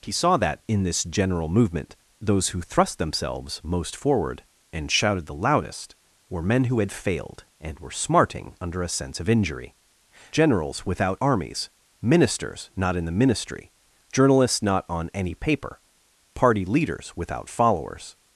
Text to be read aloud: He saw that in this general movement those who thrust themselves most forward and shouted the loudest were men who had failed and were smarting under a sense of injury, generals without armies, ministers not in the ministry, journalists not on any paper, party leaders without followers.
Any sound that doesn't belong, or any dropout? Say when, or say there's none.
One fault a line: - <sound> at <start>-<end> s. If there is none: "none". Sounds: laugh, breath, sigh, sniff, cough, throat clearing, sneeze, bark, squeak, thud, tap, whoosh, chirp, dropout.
none